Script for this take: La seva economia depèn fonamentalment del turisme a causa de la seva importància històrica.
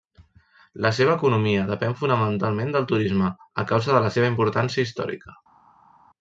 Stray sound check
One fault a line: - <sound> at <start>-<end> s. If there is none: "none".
none